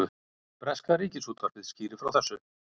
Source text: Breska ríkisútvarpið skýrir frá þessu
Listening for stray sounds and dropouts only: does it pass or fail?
pass